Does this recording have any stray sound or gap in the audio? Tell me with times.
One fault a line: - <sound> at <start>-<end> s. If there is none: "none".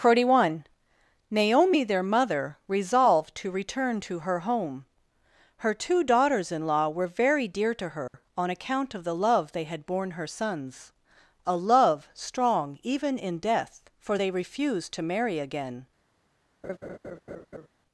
- dropout at 8.1-8.1 s
- laugh at 16.6-17.7 s